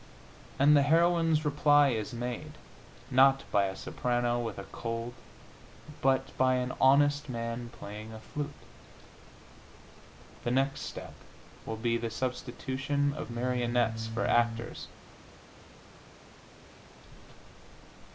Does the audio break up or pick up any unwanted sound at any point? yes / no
no